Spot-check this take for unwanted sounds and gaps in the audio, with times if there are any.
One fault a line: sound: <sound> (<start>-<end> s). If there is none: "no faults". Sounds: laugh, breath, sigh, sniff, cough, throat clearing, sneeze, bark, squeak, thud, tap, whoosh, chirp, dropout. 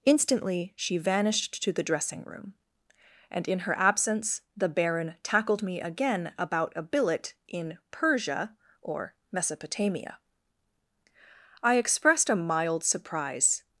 no faults